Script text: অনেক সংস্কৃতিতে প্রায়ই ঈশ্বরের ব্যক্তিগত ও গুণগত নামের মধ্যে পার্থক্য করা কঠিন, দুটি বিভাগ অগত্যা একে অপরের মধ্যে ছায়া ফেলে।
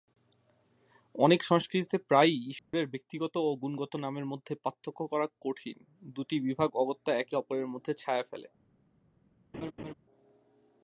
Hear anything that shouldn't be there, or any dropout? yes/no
yes